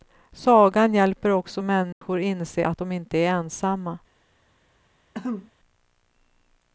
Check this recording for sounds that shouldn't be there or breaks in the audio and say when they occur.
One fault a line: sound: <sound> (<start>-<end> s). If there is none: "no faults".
sound: dropout (1.9-2.0 s)
sound: throat clearing (5.1-5.5 s)